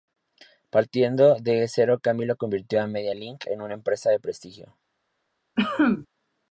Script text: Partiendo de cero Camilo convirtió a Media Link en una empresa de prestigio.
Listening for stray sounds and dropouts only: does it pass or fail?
fail